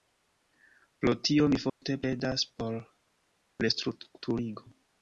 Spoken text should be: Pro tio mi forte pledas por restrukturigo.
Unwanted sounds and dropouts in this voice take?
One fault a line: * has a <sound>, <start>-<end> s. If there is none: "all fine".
* has a dropout, 1.7-1.8 s